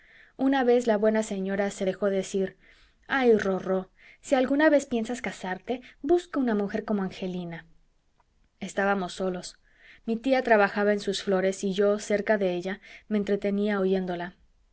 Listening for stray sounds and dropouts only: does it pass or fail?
pass